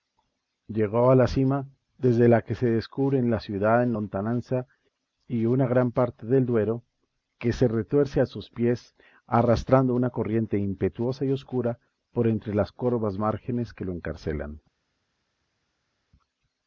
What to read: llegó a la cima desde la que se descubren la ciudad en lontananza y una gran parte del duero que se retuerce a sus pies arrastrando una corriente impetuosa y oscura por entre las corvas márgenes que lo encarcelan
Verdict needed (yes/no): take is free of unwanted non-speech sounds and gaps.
yes